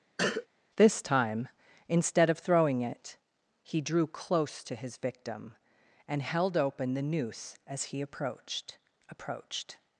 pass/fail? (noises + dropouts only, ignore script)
fail